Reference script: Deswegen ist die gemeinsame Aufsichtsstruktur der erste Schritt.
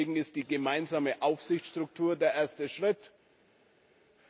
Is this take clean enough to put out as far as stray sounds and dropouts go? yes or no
yes